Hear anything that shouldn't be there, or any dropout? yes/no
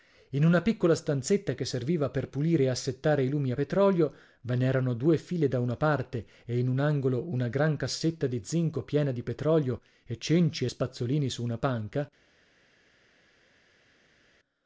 no